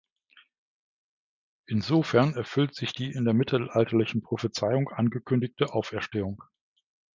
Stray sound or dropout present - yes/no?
no